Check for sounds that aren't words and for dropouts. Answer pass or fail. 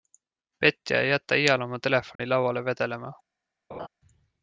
fail